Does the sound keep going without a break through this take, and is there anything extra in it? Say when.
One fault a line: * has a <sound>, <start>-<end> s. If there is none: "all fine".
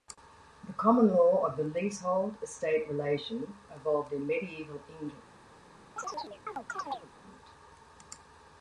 * has a chirp, 6.0-7.1 s